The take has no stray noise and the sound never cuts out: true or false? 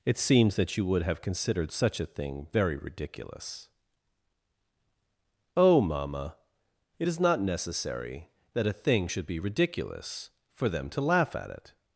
true